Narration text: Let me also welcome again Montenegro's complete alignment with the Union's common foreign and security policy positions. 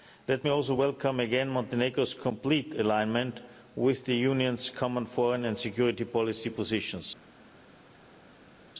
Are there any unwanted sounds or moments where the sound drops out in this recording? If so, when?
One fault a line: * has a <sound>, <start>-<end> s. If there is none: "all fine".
all fine